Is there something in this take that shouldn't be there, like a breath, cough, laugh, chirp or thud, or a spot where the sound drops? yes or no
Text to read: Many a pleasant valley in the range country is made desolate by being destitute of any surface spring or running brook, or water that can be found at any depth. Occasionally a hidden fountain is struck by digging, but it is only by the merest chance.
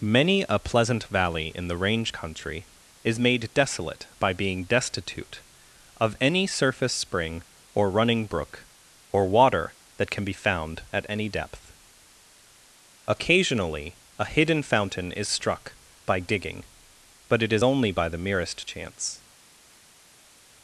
no